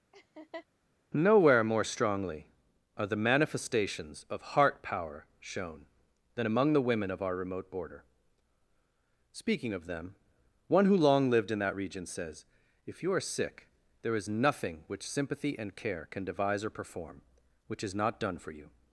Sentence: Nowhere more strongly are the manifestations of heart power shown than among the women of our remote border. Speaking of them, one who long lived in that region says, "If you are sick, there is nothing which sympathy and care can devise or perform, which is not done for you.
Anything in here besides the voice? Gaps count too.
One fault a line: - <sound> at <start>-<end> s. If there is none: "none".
- laugh at 0.1-0.7 s